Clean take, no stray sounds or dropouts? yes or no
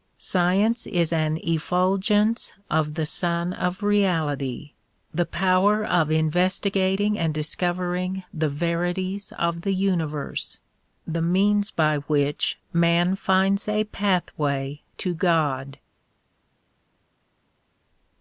yes